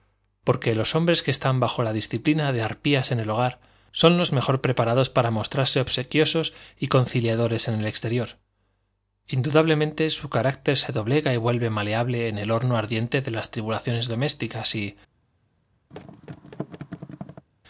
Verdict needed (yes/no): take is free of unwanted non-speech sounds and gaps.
no